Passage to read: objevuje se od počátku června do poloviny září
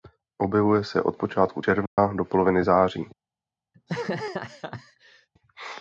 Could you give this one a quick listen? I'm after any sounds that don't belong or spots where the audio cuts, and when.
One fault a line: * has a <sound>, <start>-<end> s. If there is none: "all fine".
* has a dropout, 1.9-2.0 s
* has a laugh, 3.7-5.3 s